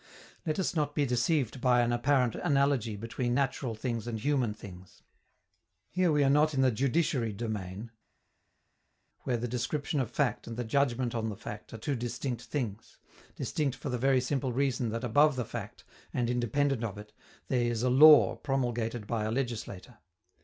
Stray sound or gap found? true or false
false